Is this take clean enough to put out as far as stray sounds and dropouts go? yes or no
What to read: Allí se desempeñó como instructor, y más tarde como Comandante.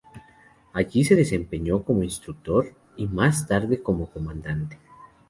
yes